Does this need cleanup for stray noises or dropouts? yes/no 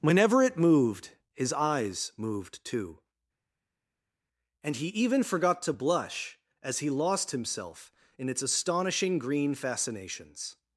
no